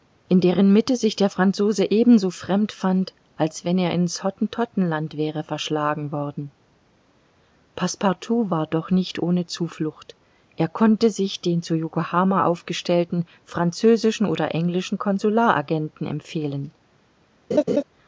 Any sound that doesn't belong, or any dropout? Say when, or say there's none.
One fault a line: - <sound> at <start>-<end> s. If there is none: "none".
- laugh at 17.5-17.8 s